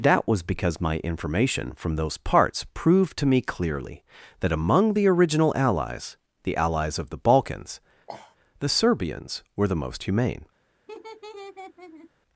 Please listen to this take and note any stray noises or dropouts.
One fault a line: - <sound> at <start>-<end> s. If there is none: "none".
- sniff at 8.1-8.4 s
- laugh at 10.9-12.1 s